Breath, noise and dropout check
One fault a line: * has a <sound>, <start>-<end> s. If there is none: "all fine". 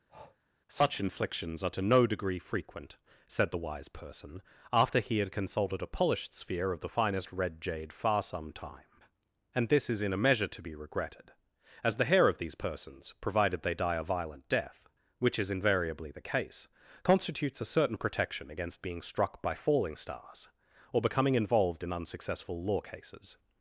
* has a breath, 0.1-0.4 s